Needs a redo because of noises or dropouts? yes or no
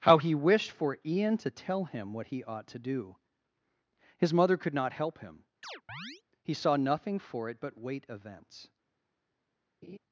yes